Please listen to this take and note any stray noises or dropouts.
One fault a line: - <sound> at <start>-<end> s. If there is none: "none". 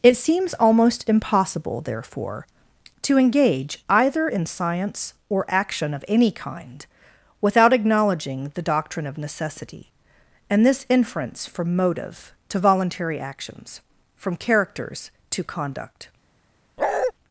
- bark at 16.8-17.1 s